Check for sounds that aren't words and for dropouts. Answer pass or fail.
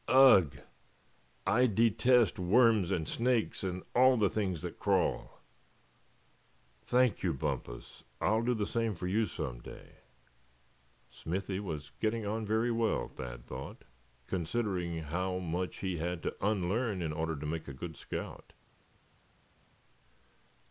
pass